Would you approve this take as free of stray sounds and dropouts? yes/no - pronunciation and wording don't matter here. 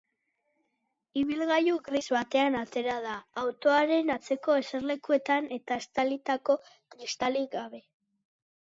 yes